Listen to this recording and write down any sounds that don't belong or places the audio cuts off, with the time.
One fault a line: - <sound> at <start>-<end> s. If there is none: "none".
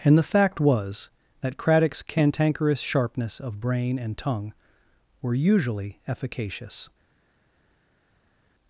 none